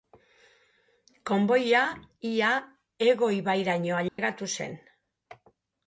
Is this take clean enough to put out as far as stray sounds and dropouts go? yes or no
no